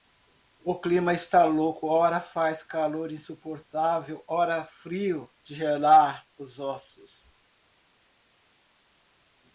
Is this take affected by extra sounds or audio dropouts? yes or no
no